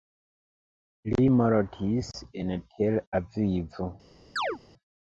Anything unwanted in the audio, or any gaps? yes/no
yes